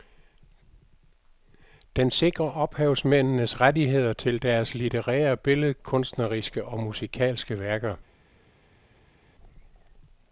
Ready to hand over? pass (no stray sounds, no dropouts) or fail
pass